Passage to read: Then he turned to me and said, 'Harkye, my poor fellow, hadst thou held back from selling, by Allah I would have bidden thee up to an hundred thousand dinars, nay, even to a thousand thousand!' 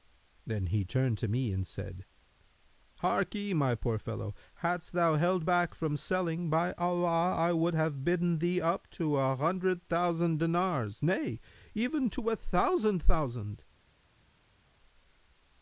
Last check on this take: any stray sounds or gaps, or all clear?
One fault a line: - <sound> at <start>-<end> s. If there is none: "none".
none